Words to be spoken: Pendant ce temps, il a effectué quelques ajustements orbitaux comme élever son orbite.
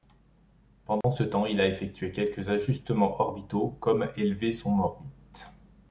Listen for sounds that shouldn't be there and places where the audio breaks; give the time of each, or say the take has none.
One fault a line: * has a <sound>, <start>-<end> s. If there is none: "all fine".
* has a dropout, 1.0-1.0 s